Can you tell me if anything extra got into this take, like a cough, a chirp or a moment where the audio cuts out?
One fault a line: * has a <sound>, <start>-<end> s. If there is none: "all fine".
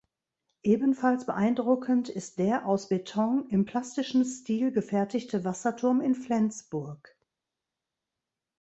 all fine